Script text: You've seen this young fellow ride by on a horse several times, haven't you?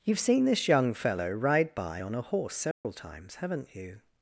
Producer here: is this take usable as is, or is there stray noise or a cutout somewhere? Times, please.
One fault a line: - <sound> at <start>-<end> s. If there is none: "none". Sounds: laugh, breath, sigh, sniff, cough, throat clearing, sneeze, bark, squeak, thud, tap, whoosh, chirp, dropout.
- dropout at 2.7-2.8 s